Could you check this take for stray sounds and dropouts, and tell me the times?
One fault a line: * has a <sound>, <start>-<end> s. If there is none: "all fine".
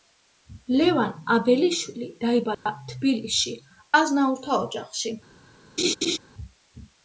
* has a dropout, 2.5-2.7 s
* has a laugh, 5.8-6.2 s